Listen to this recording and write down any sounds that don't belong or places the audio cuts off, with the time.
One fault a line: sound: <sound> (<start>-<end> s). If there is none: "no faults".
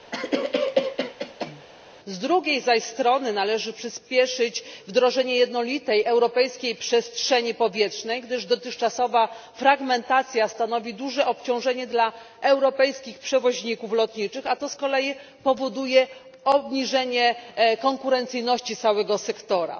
sound: cough (0.1-1.7 s)